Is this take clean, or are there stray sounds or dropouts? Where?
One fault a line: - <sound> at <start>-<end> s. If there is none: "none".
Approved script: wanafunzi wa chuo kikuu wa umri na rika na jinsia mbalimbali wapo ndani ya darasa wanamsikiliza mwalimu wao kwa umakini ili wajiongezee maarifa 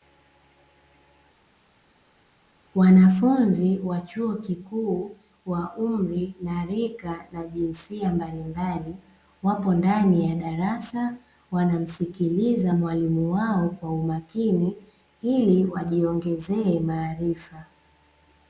none